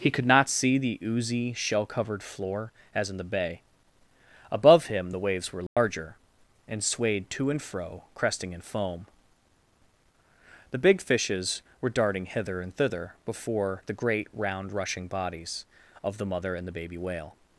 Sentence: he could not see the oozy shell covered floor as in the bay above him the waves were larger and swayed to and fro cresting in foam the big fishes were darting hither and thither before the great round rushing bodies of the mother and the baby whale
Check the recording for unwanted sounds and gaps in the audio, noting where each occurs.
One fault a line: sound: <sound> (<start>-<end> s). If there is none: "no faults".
sound: dropout (5.7-5.8 s)